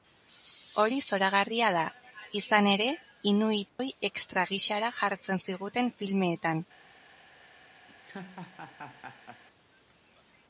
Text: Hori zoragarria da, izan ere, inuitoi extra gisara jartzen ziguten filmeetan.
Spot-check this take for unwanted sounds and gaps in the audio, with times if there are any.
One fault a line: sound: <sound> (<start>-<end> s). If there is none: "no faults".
sound: dropout (3.7-3.8 s)
sound: laugh (7.9-9.4 s)